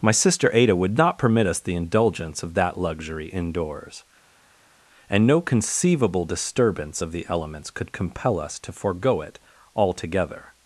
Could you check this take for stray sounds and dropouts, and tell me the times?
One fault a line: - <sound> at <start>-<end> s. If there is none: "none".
none